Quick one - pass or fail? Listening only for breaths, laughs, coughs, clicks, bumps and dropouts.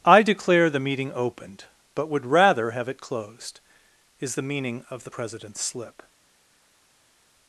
pass